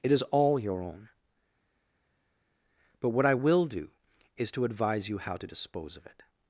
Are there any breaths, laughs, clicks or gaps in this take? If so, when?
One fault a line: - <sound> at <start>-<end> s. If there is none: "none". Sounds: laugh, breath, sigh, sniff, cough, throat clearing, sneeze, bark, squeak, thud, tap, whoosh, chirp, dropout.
none